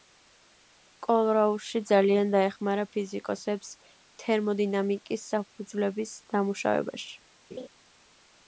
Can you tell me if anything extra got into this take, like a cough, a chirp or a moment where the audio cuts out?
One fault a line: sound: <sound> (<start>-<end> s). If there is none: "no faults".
sound: laugh (7.5-7.7 s)